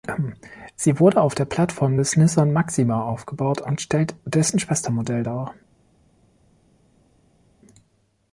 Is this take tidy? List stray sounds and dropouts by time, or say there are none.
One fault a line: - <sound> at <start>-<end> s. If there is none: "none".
none